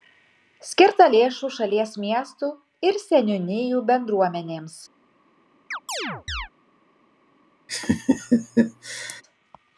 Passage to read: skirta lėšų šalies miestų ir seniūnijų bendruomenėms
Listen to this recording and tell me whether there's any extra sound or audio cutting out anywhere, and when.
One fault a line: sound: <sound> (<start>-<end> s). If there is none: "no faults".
sound: chirp (5.7-6.5 s)
sound: laugh (7.7-9.2 s)